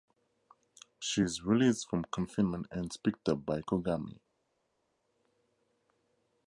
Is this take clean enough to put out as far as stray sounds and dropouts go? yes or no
yes